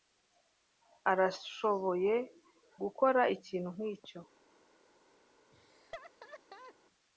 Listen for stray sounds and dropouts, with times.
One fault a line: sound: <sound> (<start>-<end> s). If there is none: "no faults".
sound: laugh (5.5-6.7 s)